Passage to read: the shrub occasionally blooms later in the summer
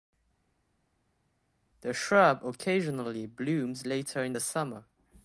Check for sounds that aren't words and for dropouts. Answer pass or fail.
pass